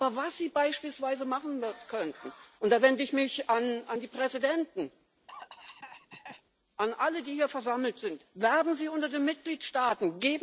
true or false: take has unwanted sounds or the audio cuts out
true